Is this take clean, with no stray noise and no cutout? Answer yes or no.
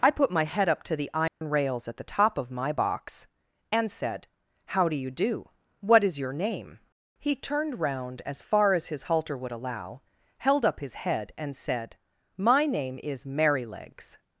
no